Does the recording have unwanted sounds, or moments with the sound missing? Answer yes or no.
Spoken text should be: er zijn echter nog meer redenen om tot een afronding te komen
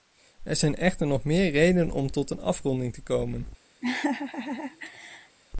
yes